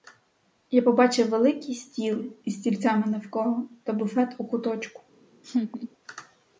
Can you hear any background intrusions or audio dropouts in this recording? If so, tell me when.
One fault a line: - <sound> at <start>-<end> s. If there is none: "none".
- laugh at 5.4-5.9 s